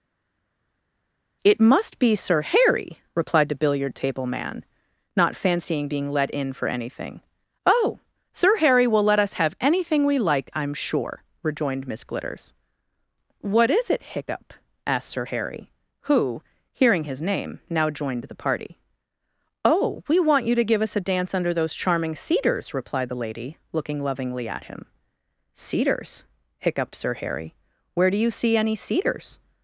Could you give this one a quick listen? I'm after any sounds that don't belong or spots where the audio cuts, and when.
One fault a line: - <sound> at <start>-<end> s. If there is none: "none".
none